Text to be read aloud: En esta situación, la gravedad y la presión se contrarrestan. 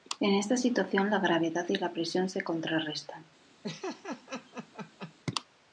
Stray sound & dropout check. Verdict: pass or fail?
fail